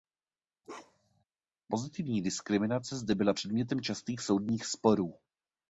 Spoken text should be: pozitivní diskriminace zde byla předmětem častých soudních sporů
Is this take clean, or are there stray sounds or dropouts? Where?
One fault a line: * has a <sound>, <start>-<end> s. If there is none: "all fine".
* has a bark, 0.6-1.2 s